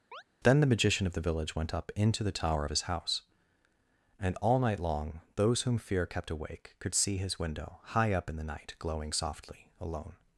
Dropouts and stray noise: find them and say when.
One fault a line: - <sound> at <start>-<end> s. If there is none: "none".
- chirp at 0.1-0.2 s